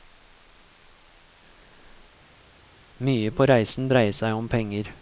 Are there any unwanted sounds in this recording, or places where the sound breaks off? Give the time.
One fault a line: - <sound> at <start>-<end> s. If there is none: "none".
none